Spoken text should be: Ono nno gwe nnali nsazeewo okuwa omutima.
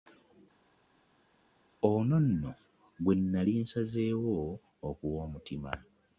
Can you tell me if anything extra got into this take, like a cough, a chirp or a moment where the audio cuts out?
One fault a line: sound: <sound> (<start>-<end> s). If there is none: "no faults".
no faults